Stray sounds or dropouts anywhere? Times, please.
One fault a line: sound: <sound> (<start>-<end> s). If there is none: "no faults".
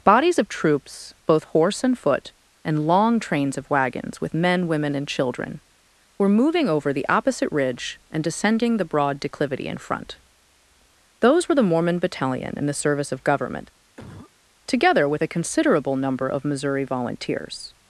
sound: cough (14.0-14.3 s)